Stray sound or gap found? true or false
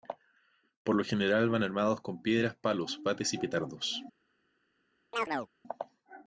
true